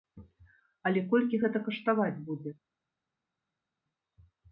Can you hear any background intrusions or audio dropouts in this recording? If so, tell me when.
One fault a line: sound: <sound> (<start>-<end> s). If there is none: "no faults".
no faults